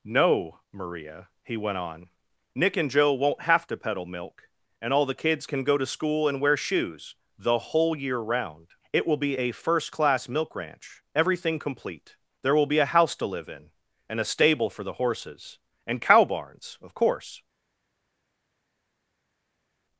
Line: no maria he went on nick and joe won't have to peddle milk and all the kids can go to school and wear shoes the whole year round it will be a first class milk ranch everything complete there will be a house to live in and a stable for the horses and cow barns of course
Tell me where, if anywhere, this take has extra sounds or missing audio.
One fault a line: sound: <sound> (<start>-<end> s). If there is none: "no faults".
no faults